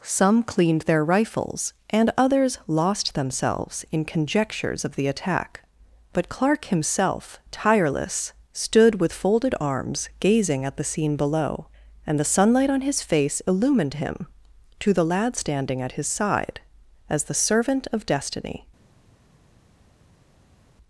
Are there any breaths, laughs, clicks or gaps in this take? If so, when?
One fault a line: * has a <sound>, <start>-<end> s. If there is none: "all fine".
all fine